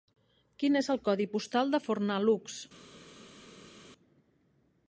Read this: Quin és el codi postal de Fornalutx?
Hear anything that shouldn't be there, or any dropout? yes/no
no